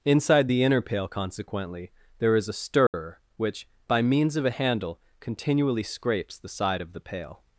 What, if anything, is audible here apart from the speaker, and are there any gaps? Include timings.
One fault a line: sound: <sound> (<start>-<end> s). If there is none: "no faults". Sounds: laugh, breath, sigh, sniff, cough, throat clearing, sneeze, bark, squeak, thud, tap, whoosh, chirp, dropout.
sound: dropout (2.9-2.9 s)